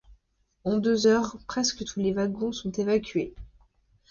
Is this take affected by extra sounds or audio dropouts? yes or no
no